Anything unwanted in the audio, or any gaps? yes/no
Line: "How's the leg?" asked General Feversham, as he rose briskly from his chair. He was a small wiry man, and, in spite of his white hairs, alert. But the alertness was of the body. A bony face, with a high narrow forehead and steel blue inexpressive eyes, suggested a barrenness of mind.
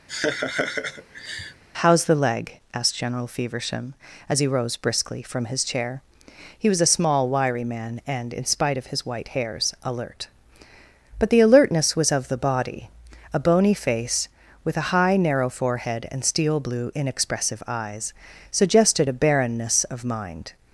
yes